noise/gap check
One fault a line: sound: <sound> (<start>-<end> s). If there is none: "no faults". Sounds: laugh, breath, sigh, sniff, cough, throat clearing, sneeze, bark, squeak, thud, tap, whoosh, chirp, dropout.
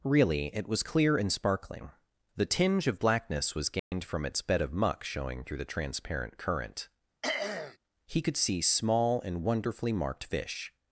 sound: dropout (3.8-3.9 s)
sound: throat clearing (7.2-7.8 s)